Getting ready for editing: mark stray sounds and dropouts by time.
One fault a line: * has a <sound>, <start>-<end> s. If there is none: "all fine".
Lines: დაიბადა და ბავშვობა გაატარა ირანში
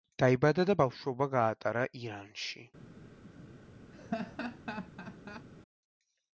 * has a laugh, 3.9-5.5 s